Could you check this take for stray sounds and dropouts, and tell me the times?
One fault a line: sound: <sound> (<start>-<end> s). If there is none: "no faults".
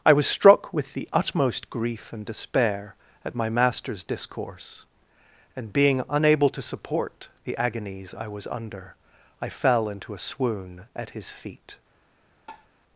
sound: tap (12.5-12.7 s)